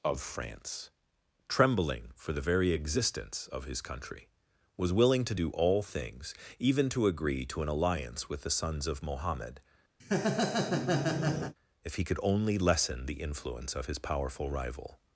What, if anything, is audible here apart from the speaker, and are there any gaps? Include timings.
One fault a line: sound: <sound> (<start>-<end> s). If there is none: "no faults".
sound: laugh (10.0-11.5 s)